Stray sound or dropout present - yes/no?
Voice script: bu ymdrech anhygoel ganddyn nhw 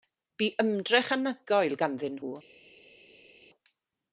no